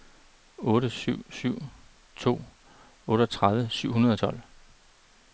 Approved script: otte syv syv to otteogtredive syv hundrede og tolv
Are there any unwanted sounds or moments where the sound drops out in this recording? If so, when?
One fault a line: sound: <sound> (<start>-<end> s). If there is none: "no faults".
no faults